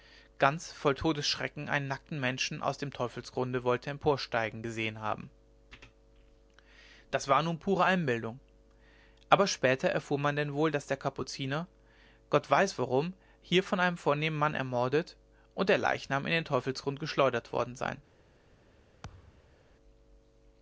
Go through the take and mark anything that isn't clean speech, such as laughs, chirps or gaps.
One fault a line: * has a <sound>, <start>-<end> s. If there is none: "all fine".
* has a thud, 19.0-19.6 s